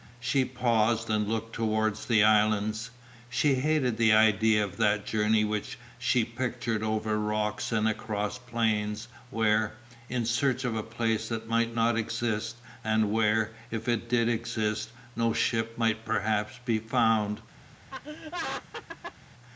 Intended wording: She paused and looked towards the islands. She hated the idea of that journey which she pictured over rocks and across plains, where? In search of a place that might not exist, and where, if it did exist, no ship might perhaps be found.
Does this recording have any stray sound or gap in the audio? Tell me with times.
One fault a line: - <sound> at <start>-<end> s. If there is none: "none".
- laugh at 17.9-19.2 s